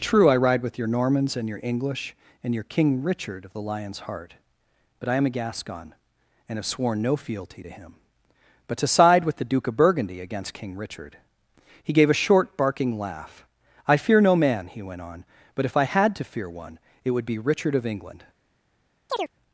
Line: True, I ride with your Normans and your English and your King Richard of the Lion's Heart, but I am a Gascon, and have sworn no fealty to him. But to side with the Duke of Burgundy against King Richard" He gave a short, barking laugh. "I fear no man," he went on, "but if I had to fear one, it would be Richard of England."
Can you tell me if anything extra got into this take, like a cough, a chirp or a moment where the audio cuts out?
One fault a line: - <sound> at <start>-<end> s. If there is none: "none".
- chirp at 19.1-19.3 s